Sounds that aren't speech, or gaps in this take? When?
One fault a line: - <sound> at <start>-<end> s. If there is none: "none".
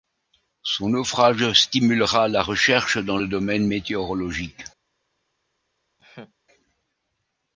- laugh at 6.0-6.3 s